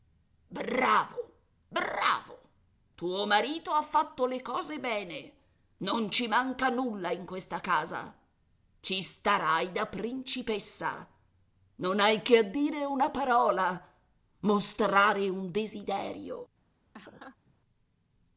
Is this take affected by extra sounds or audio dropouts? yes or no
yes